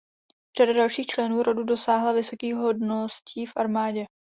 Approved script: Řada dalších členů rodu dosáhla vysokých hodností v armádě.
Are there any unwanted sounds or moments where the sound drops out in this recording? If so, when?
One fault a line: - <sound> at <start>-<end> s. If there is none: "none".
none